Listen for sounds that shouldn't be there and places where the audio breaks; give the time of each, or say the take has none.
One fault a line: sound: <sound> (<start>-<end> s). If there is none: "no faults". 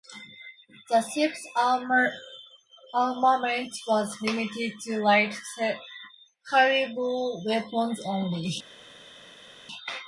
no faults